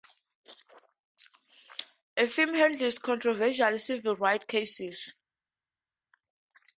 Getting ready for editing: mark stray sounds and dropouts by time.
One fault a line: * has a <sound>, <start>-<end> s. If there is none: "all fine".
all fine